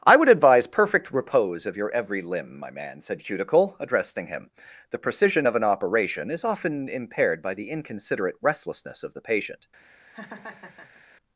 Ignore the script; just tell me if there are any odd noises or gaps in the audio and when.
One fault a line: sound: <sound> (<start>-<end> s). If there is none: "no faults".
sound: laugh (10.1-11.0 s)